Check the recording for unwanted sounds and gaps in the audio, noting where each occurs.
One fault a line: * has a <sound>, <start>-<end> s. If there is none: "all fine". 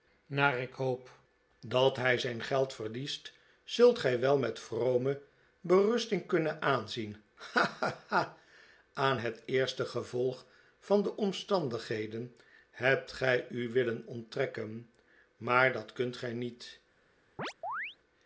* has a chirp, 17.4-18.0 s